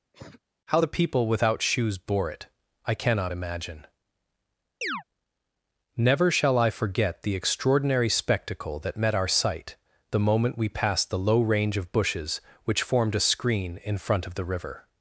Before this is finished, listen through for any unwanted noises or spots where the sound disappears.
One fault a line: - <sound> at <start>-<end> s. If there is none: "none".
- cough at 0.1-0.4 s
- chirp at 4.8-5.0 s